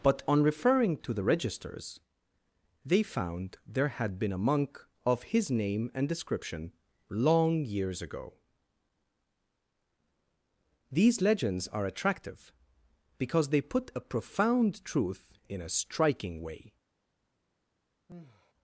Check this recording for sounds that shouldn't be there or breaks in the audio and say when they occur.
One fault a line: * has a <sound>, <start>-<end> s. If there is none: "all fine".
* has a sigh, 18.1-18.5 s